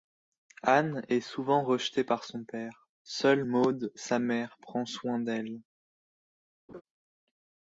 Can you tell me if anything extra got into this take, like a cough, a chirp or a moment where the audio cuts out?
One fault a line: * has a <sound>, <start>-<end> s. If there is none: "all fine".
* has a laugh, 6.7-6.8 s